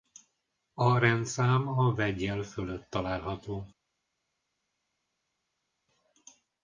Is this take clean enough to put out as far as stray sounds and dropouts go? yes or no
yes